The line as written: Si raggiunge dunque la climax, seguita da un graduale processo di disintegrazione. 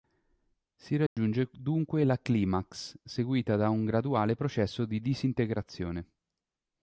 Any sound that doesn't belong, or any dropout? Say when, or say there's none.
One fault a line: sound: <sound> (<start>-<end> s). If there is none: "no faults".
sound: dropout (1.1-1.2 s)